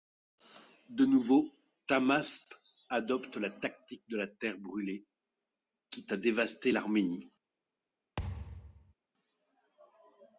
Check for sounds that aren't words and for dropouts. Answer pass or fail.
fail